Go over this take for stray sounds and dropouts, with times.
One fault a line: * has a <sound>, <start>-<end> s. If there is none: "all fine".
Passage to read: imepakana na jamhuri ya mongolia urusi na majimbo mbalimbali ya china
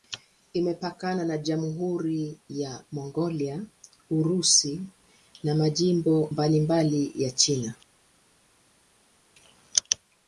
all fine